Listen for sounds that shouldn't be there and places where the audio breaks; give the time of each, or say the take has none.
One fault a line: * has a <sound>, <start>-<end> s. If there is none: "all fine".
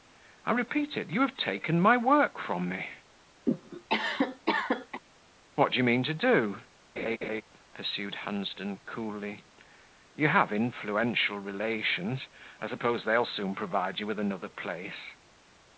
* has a cough, 3.5-5.0 s
* has a laugh, 7.0-7.4 s